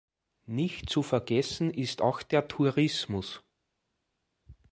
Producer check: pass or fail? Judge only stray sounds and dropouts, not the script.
pass